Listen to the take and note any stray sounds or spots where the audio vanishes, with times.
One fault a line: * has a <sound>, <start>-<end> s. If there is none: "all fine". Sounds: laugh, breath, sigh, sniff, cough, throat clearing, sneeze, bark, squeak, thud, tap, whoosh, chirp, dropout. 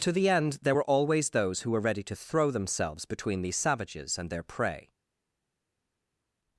all fine